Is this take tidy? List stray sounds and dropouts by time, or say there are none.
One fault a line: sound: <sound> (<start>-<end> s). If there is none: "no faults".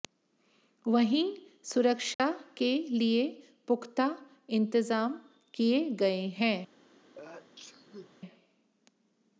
sound: dropout (2.1-2.2 s)
sound: sneeze (7.2-8.2 s)